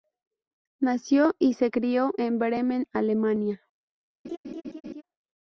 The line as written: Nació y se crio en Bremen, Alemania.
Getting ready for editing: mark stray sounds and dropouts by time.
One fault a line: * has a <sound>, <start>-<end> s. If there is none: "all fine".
* has a laugh, 4.2-5.0 s